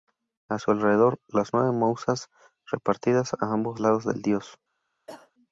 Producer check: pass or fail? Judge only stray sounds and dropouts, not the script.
fail